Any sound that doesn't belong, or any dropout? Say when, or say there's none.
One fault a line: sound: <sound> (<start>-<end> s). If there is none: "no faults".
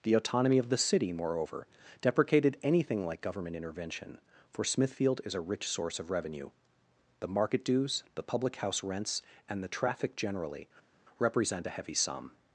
no faults